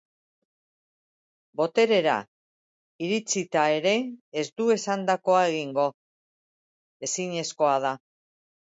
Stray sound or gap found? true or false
false